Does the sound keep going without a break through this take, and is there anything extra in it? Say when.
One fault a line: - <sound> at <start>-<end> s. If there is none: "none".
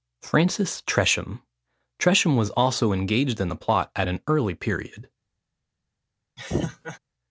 - laugh at 6.4-7.0 s